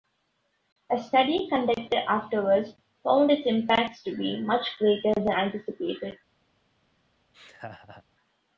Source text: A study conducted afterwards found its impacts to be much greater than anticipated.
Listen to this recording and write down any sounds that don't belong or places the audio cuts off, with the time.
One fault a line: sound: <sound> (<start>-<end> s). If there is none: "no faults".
sound: laugh (7.3-8.0 s)